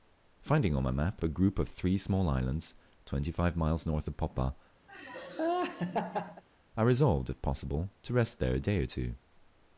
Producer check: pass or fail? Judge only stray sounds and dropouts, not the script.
fail